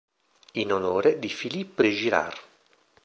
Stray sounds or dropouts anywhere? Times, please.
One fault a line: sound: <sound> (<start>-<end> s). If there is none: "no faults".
no faults